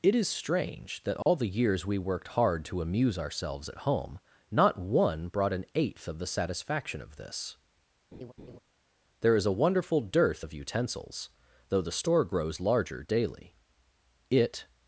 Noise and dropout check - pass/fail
fail